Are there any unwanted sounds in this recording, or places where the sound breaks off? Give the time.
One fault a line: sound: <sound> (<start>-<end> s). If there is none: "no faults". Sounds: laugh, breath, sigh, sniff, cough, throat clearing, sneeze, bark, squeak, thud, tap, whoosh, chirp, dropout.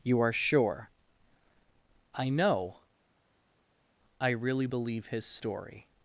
no faults